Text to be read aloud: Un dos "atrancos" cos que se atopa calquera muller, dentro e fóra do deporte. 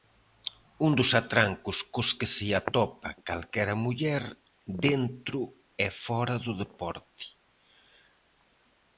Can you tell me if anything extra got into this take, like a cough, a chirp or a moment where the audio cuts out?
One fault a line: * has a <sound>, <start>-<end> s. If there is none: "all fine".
all fine